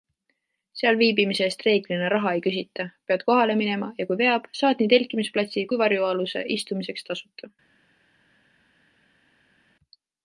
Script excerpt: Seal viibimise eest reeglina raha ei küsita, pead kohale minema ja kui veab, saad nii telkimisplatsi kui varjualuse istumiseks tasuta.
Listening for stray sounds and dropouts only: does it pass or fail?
pass